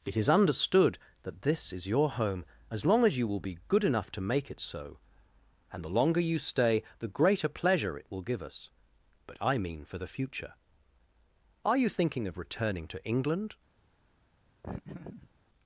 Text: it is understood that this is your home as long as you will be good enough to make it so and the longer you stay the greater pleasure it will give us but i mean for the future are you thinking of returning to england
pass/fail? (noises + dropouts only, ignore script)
fail